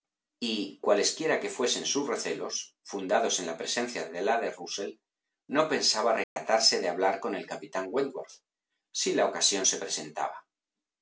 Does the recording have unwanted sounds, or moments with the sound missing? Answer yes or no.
yes